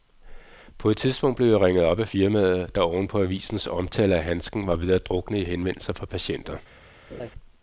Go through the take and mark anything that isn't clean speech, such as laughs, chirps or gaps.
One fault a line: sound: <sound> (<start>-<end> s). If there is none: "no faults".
sound: laugh (7.1-7.3 s)